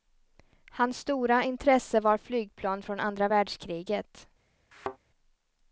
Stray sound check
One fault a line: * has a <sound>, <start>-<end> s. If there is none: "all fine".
* has a thud, 4.7-5.0 s